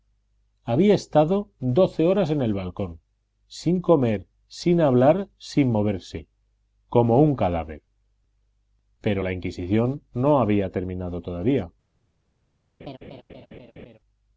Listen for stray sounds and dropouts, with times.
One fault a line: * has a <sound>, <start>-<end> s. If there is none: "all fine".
* has a laugh, 12.8-14.0 s